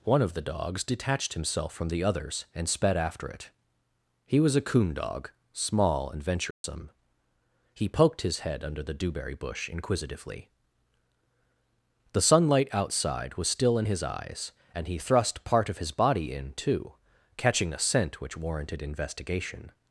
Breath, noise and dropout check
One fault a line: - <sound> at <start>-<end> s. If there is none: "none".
- dropout at 6.5-6.6 s